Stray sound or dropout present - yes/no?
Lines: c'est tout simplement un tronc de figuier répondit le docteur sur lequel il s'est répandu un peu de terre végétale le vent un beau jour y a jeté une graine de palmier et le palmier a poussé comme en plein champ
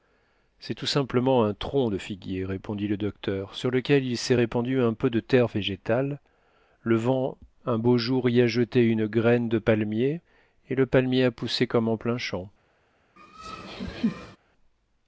yes